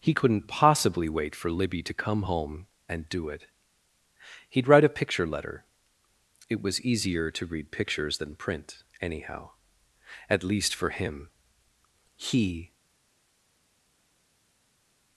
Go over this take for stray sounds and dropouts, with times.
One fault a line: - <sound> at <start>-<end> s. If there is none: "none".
none